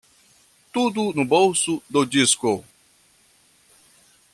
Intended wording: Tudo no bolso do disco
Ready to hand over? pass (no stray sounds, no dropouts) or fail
pass